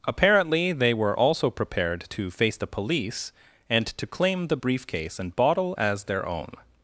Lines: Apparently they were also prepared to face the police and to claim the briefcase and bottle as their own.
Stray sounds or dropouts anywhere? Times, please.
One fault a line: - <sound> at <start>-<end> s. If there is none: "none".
none